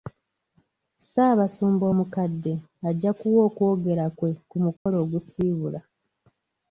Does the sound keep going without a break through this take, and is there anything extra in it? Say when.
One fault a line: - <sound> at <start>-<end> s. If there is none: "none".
- dropout at 4.8-4.9 s